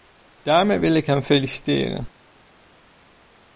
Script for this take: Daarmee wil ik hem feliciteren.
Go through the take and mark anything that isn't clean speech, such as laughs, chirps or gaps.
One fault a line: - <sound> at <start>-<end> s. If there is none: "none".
none